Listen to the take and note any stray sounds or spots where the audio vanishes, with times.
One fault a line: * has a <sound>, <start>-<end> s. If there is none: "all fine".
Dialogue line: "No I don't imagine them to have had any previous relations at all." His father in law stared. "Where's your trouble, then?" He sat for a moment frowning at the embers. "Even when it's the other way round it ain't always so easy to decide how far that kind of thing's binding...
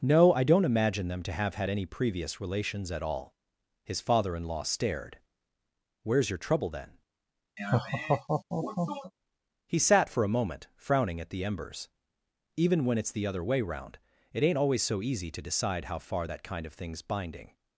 * has a laugh, 7.6-9.1 s